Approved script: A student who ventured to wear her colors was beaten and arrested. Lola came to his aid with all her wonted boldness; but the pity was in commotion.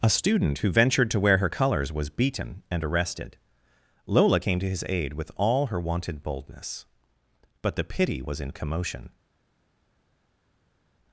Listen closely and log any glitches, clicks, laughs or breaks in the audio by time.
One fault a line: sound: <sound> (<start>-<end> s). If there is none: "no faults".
no faults